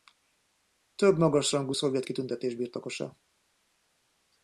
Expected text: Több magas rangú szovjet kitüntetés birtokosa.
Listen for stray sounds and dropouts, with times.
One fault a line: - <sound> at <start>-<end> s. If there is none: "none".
none